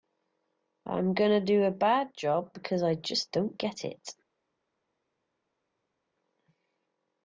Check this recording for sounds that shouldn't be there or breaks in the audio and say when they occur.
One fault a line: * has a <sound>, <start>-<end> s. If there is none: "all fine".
all fine